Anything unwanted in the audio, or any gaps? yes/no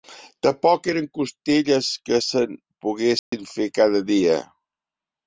yes